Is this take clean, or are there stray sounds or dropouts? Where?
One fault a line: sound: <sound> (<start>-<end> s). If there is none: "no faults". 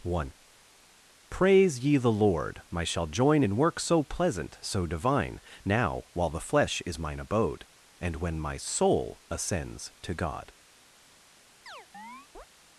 sound: chirp (11.7-12.5 s)